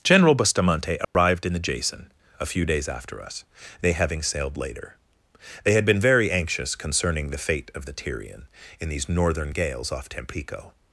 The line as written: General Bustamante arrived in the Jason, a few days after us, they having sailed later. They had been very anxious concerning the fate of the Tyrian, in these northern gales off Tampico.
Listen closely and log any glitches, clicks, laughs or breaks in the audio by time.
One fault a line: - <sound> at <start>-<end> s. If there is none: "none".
- dropout at 1.0-1.1 s